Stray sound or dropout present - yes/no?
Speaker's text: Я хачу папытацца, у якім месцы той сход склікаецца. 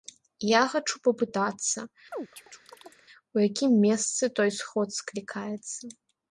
yes